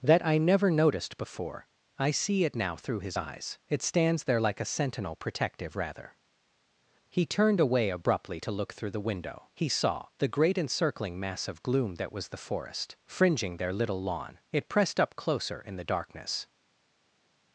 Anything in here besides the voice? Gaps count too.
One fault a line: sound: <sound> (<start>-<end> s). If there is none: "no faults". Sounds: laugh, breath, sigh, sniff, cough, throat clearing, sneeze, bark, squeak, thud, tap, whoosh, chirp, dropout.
no faults